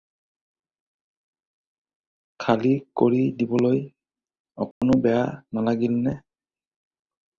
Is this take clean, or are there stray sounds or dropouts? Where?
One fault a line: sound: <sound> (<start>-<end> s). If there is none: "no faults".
sound: dropout (4.7-4.8 s)